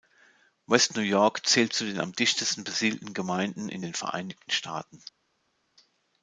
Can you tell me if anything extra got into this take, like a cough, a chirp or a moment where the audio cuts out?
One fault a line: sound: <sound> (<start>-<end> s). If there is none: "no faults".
no faults